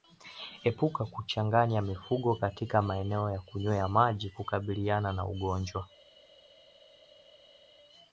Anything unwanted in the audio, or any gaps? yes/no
no